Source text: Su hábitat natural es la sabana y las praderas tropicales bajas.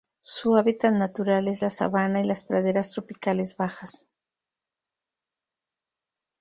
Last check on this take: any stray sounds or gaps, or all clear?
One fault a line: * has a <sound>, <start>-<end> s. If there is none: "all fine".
all fine